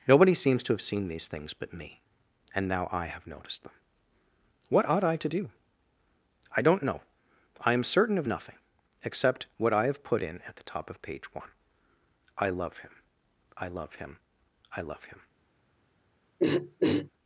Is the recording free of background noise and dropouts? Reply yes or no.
no